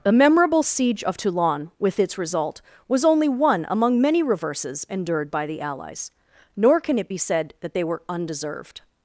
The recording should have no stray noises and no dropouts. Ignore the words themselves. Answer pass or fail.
pass